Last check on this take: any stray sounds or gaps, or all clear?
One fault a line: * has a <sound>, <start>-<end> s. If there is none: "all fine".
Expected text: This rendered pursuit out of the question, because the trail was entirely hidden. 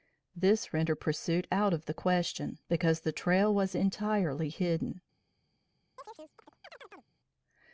* has a chirp, 6.0-7.1 s